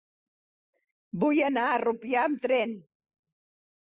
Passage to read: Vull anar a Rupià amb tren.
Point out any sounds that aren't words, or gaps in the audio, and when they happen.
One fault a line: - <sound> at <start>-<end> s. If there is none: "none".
none